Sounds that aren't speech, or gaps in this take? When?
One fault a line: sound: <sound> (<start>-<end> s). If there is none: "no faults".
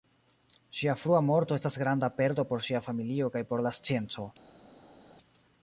no faults